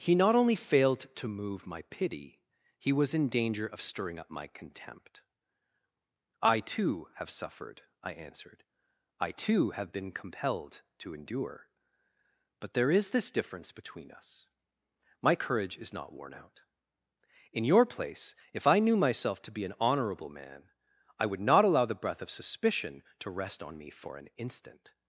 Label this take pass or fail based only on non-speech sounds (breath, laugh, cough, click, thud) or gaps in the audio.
pass